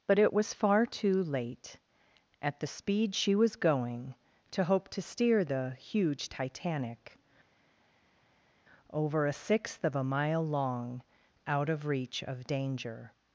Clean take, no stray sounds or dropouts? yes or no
yes